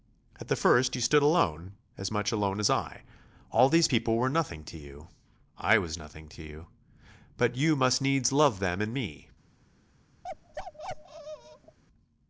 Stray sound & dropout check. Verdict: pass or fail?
fail